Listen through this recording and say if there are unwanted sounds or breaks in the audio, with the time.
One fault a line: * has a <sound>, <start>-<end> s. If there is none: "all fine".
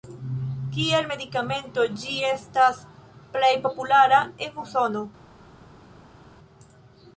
all fine